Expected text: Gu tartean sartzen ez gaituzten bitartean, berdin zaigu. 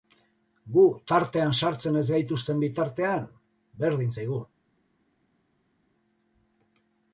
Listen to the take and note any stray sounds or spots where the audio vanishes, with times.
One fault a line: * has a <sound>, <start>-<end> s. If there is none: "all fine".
all fine